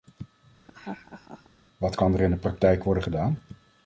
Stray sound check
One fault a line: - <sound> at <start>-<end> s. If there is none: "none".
- laugh at 0.6-1.5 s